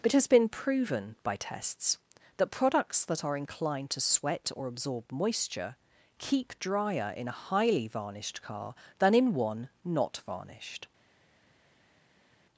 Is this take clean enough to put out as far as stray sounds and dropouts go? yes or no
yes